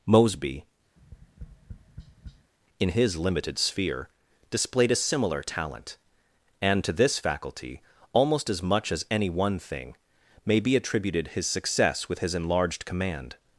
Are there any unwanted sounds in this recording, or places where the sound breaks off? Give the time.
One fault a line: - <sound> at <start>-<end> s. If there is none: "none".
- tap at 1.0-2.5 s